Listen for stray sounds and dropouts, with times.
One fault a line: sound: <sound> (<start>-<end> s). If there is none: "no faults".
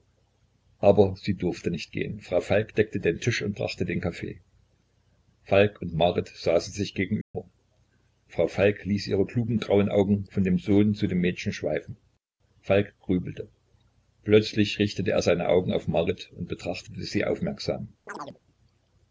sound: dropout (7.2-7.3 s)
sound: chirp (18.1-18.4 s)